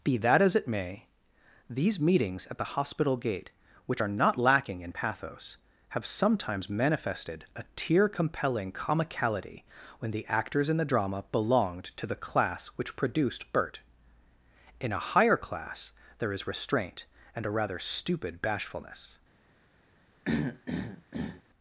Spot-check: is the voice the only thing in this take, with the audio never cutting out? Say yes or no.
no